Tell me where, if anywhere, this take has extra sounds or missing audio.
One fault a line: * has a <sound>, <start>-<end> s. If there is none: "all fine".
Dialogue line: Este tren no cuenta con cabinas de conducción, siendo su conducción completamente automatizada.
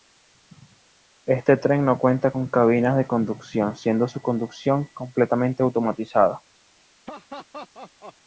* has a laugh, 7.1-8.2 s